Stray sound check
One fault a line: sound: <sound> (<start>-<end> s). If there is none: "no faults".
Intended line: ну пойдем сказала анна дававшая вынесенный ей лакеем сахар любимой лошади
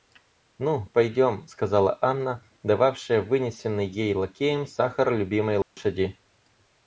sound: dropout (5.6-5.8 s)